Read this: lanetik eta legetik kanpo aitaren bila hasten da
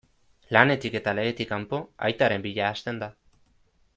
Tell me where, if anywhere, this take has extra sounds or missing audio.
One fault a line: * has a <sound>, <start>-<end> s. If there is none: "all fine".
all fine